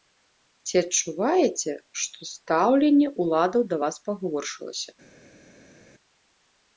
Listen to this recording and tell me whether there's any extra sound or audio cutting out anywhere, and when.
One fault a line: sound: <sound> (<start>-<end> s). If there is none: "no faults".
no faults